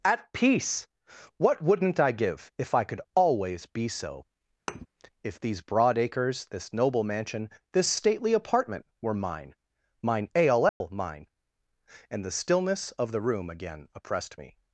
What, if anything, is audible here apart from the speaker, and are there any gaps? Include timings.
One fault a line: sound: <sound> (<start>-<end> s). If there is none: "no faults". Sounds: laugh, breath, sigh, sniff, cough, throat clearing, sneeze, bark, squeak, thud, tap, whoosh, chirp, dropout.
sound: thud (4.7-4.9 s)
sound: dropout (10.7-10.8 s)